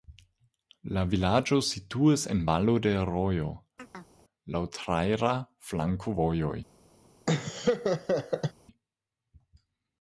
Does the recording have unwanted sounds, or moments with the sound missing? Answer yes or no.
yes